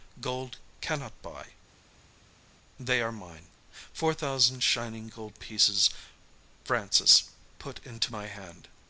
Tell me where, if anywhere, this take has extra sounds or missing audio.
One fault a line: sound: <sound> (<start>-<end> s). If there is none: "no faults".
no faults